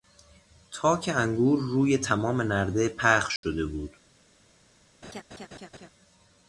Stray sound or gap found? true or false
true